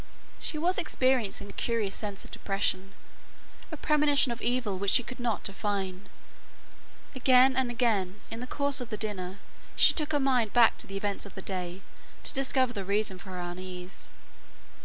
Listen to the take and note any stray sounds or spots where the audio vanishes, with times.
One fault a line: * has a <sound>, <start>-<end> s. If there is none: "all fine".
all fine